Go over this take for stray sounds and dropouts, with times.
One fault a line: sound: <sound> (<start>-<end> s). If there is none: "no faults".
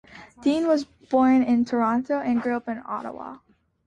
no faults